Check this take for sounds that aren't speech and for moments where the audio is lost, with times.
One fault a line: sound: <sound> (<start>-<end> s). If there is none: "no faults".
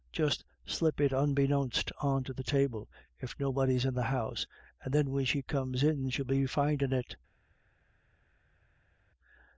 no faults